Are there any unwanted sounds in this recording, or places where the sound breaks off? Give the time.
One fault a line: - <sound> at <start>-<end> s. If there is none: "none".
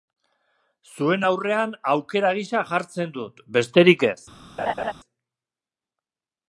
- laugh at 4.6-4.9 s